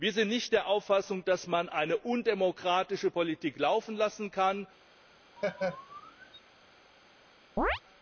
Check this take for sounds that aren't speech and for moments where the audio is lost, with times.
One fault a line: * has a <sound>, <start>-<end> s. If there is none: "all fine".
* has a laugh, 5.4-6.4 s
* has a chirp, 7.6-7.8 s